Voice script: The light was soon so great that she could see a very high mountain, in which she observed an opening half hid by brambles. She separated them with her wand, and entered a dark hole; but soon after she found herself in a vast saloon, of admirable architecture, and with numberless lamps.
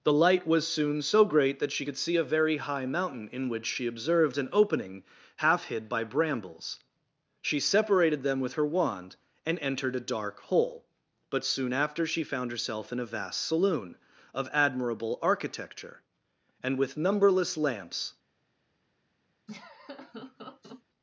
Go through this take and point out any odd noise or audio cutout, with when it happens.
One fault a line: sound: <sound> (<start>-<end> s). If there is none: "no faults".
sound: laugh (19.5-20.8 s)